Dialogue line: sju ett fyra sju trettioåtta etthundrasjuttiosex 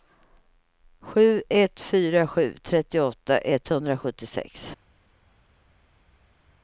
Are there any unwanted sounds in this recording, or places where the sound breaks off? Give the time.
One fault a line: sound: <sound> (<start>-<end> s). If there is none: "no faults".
no faults